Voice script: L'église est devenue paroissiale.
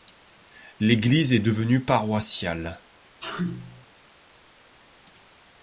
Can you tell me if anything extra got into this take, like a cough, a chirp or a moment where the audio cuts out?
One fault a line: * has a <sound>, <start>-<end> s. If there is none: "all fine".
* has a sneeze, 3.2-3.9 s